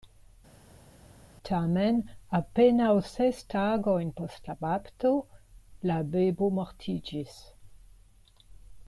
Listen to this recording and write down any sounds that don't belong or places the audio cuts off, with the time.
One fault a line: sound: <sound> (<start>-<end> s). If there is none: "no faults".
no faults